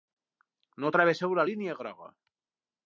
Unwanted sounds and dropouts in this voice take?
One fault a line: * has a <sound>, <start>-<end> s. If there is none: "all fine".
all fine